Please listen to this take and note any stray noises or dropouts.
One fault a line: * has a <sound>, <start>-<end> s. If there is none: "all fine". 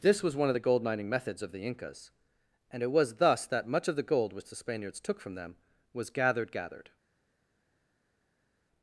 all fine